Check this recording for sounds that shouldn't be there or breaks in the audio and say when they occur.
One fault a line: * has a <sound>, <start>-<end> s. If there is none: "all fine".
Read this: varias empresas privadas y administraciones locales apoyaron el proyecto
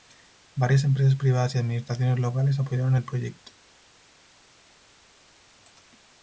all fine